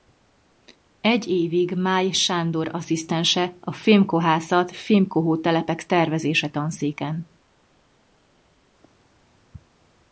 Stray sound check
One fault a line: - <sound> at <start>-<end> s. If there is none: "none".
none